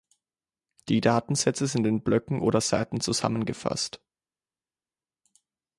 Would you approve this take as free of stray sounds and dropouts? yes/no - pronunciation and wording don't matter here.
yes